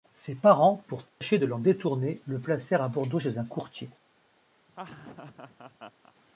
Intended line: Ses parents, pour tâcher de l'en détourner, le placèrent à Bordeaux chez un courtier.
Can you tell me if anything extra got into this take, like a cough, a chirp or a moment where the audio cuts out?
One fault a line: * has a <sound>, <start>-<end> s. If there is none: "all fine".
* has a dropout, 1.1-1.2 s
* has a laugh, 4.7-6.1 s